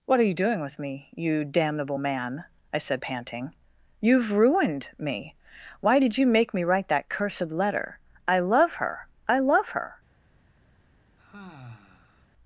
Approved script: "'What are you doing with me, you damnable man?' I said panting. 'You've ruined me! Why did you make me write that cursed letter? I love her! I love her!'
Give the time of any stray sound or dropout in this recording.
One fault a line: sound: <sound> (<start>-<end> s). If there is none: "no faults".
sound: sigh (11.2-12.3 s)